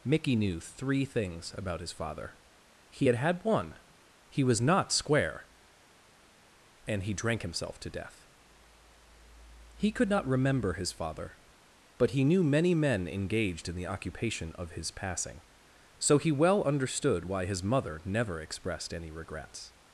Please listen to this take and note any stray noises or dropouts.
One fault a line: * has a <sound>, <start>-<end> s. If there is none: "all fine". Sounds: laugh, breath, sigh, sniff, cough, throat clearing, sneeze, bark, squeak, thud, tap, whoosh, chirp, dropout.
all fine